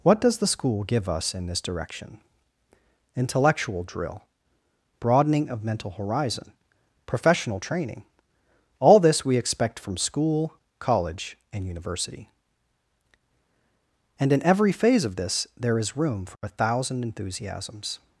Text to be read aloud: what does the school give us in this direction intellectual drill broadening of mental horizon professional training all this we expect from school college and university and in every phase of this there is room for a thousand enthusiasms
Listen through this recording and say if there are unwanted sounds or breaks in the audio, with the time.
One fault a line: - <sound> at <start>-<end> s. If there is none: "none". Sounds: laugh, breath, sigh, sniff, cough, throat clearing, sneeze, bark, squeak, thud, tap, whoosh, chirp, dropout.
none